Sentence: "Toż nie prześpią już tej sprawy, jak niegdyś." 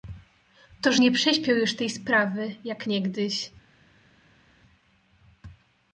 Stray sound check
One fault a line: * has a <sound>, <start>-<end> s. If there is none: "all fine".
all fine